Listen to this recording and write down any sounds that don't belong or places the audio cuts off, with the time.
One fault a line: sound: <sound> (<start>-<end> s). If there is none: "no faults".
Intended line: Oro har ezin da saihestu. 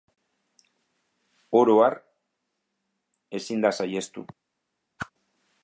sound: whoosh (5.0-5.1 s)